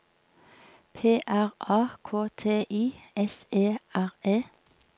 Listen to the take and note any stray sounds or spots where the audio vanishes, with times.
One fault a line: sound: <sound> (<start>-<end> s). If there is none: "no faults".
no faults